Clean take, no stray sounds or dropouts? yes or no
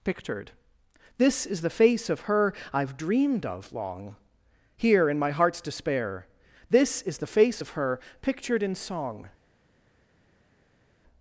yes